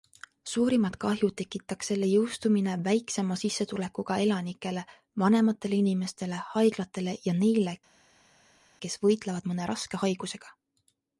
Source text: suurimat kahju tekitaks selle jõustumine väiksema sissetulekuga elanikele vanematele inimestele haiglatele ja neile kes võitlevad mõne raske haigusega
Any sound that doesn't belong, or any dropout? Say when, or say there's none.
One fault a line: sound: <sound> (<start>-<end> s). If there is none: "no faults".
no faults